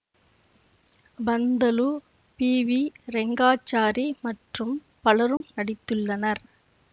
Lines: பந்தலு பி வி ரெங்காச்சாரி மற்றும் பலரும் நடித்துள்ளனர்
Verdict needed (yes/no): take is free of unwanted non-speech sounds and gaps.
no